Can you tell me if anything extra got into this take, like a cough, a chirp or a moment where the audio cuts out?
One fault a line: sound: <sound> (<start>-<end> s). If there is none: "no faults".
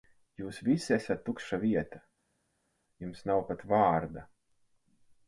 no faults